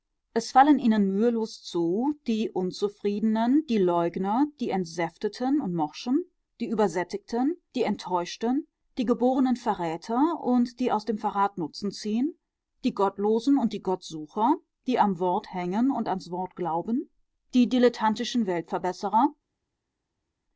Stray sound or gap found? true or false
false